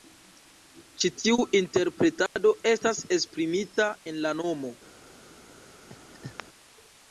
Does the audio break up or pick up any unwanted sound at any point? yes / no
yes